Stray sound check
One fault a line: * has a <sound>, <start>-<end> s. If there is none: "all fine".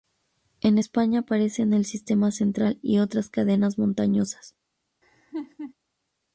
* has a laugh, 5.0-5.7 s